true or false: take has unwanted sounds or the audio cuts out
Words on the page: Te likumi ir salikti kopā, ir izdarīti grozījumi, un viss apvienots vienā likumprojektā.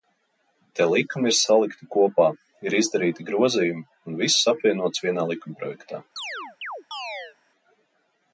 true